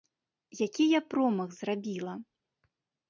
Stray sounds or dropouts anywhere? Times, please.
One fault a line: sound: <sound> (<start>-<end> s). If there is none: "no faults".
no faults